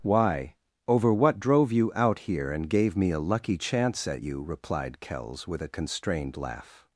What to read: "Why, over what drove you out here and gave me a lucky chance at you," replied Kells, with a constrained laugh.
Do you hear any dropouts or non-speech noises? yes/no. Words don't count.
no